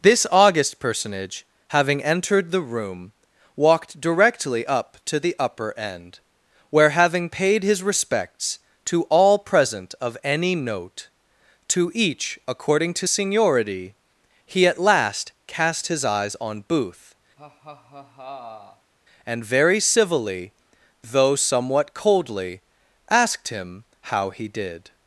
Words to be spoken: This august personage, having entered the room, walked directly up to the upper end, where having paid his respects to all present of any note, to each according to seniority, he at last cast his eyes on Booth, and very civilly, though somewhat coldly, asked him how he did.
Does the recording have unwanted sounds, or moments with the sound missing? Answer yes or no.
yes